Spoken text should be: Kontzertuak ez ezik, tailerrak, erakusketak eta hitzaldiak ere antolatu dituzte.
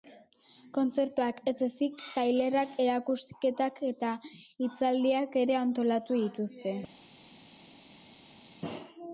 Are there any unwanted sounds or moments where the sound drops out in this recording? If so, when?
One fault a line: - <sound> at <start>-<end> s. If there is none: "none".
none